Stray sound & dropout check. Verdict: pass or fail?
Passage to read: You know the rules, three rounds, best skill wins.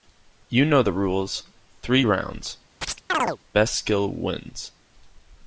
fail